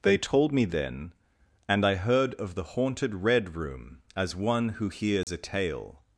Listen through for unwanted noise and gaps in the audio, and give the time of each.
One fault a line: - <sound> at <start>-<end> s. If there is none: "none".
- dropout at 5.2-5.3 s